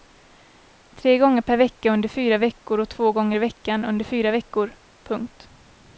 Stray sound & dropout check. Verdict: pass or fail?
pass